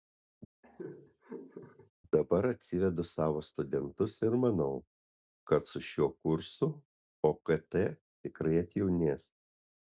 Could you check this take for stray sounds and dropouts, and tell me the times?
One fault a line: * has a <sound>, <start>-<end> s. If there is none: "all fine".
* has a laugh, 0.6-1.9 s